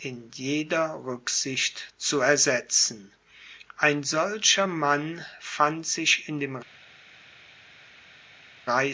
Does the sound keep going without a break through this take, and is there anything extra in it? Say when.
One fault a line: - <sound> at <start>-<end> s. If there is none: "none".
none